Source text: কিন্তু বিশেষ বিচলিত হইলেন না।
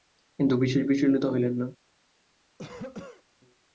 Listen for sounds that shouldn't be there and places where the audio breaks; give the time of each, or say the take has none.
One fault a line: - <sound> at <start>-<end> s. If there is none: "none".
- cough at 2.6-3.2 s